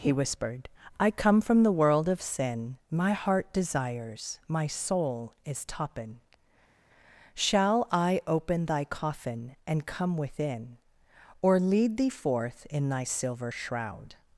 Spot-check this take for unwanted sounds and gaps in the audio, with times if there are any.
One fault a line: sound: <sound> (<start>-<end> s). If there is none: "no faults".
no faults